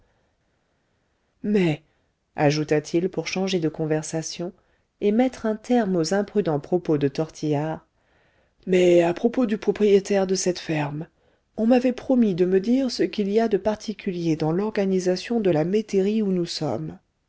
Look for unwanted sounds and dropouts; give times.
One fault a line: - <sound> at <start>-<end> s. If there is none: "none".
none